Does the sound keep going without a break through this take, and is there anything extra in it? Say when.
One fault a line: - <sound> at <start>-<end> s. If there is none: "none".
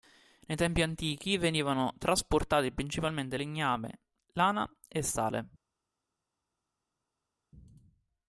none